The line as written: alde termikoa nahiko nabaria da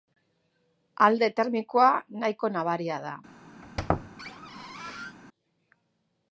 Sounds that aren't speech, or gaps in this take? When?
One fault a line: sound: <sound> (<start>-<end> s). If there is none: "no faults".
sound: squeak (3.6-5.2 s)